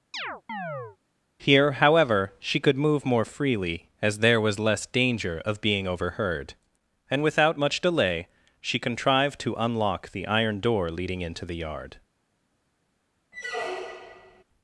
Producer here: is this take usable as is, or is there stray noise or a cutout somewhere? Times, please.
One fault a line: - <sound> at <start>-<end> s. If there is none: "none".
- chirp at 0.1-1.0 s
- squeak at 13.3-14.4 s